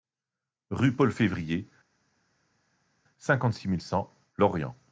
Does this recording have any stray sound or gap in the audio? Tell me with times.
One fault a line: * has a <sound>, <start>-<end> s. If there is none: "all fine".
all fine